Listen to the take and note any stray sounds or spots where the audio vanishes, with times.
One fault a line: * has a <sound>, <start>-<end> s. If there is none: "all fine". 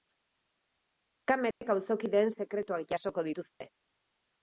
* has a dropout, 1.5-1.6 s
* has a dropout, 3.5-3.6 s